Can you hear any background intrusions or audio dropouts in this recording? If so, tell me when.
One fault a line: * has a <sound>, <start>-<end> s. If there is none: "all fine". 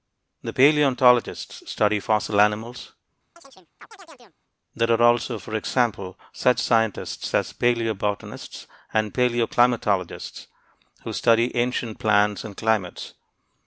* has a chirp, 3.4-4.4 s